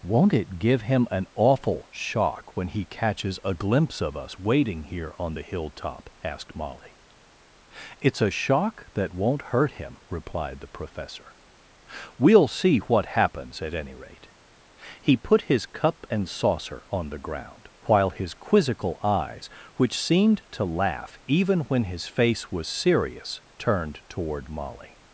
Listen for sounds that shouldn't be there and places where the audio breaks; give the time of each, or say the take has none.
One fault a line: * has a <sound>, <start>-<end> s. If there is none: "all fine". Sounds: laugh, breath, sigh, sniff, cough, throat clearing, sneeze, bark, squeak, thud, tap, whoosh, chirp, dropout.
all fine